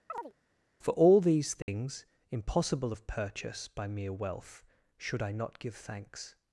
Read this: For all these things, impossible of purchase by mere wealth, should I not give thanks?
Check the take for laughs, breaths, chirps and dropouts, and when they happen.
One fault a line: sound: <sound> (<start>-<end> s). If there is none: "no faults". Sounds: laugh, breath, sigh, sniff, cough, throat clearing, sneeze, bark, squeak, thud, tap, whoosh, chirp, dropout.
sound: chirp (0.1-0.3 s)
sound: dropout (1.6-1.7 s)